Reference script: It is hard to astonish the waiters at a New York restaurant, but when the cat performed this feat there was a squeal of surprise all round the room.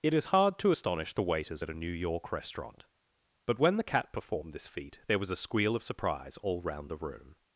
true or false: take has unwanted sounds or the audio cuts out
false